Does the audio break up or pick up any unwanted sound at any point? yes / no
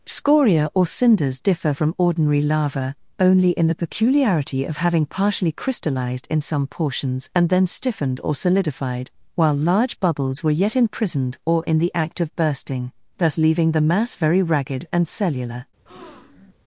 yes